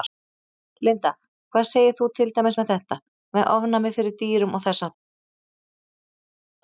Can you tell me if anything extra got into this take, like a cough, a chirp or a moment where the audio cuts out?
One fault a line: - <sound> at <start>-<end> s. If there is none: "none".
none